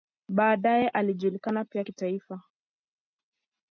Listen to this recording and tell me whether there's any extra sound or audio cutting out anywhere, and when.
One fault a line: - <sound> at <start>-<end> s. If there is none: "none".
none